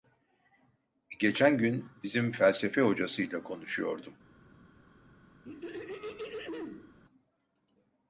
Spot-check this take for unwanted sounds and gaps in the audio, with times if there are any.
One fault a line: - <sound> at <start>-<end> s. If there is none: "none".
- throat clearing at 5.4-7.0 s